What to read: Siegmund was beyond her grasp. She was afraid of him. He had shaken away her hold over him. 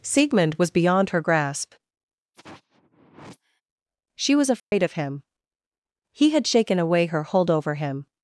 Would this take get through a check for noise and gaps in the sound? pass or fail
fail